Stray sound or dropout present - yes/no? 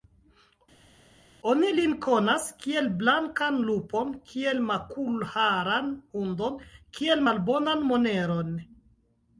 no